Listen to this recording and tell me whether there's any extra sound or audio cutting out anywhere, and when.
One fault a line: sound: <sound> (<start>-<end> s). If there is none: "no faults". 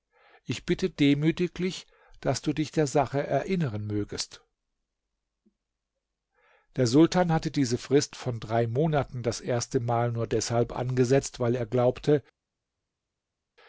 no faults